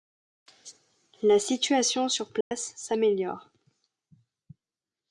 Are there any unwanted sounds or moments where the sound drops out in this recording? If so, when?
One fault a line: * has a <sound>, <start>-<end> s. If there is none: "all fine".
* has a dropout, 2.4-2.5 s